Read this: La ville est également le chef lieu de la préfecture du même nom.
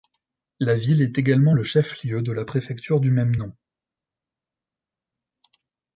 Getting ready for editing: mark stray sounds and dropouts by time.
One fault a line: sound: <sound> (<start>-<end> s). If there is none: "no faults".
no faults